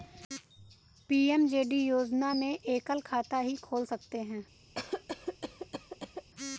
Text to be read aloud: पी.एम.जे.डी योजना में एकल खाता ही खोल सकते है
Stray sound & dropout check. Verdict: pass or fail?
fail